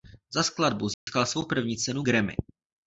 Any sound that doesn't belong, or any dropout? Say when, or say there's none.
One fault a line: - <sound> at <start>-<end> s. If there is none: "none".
- dropout at 0.9-1.1 s